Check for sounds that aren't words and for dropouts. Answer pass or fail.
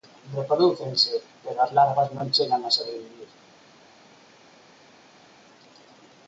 pass